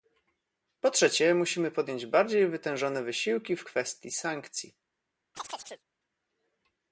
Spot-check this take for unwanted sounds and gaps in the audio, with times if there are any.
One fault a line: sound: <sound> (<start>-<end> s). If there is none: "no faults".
sound: chirp (5.3-5.8 s)